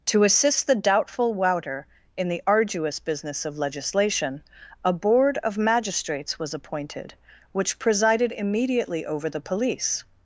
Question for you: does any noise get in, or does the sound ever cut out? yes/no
no